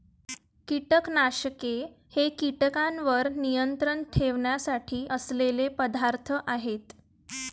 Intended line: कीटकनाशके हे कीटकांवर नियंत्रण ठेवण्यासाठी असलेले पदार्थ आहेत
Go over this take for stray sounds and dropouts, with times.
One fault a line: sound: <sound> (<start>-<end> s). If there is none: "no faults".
no faults